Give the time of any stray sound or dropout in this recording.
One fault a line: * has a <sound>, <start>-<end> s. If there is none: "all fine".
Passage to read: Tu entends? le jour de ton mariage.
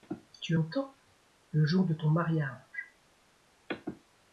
all fine